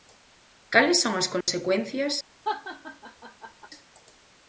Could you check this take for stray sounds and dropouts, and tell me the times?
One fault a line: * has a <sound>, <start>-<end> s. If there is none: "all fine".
* has a dropout, 1.4-1.5 s
* has a laugh, 2.4-3.7 s